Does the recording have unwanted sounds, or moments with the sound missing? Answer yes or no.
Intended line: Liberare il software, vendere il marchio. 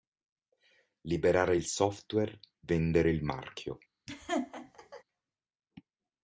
yes